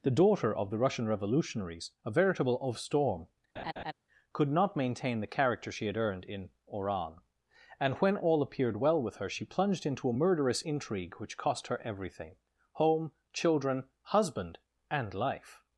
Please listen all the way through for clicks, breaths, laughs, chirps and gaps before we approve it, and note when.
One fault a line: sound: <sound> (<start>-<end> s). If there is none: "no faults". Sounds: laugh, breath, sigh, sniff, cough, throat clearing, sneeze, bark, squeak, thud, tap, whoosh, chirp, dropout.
sound: laugh (3.6-3.9 s)